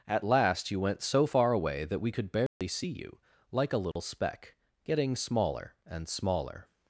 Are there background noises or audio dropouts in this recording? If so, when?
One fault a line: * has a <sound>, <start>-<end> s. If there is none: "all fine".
* has a dropout, 2.5-2.6 s
* has a dropout, 3.9-4.0 s